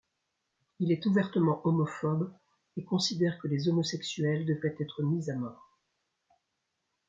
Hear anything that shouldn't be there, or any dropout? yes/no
no